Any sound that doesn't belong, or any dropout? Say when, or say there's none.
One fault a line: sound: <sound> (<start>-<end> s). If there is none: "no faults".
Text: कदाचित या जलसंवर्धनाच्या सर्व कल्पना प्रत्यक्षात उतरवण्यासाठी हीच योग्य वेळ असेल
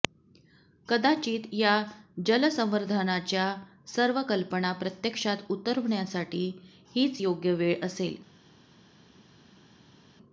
no faults